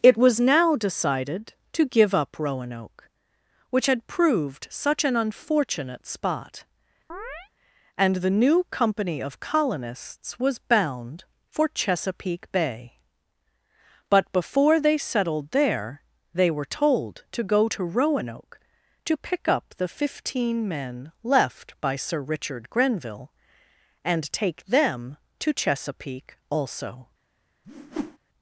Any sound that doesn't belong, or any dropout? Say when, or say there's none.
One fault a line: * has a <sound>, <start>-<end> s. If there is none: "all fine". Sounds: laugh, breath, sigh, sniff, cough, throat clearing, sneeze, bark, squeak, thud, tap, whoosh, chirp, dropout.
* has a chirp, 7.1-7.5 s
* has a whoosh, 27.6-28.2 s